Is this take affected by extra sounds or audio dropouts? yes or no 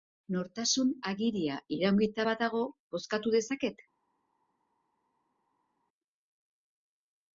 no